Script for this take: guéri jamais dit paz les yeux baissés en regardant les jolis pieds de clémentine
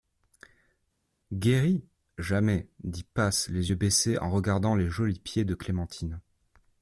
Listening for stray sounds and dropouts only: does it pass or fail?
pass